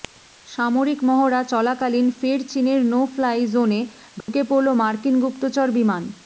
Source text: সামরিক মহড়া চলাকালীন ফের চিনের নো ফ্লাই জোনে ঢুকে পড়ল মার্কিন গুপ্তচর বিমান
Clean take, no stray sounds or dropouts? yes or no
no